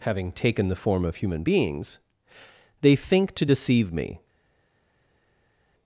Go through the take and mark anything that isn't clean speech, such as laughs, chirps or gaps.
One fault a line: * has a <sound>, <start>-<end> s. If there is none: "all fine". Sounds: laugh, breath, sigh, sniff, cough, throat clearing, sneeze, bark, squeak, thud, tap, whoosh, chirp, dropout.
all fine